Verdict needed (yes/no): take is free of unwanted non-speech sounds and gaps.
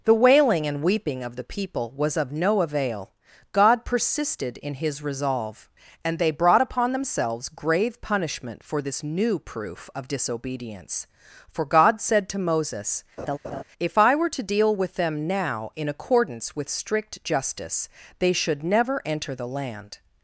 no